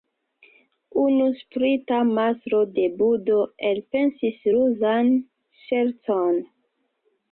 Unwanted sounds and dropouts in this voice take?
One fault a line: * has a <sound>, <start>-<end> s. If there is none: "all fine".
all fine